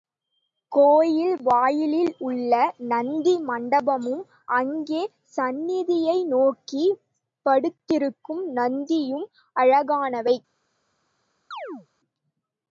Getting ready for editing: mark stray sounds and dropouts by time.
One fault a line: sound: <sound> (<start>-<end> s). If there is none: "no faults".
sound: chirp (11.5-11.9 s)